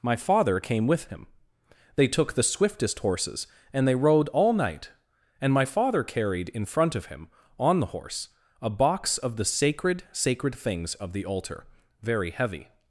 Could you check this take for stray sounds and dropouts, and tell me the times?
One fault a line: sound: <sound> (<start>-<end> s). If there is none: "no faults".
no faults